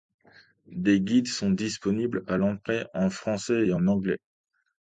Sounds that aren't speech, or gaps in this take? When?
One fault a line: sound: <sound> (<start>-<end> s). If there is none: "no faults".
no faults